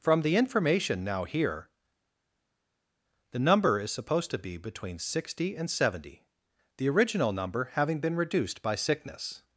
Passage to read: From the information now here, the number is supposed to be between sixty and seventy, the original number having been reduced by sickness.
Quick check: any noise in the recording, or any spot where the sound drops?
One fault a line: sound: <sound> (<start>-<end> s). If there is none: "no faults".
no faults